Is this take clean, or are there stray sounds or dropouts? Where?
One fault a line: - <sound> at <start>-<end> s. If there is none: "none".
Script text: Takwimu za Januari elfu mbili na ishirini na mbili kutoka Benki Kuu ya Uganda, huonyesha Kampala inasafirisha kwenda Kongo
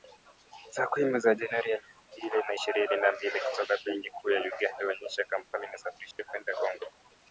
- dropout at 6.1-6.2 s